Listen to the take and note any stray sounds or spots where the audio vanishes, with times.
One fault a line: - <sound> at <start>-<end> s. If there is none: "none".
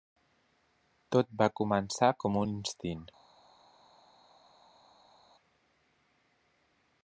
none